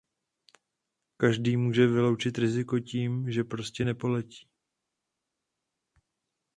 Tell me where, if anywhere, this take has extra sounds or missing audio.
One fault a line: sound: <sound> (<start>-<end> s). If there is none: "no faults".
no faults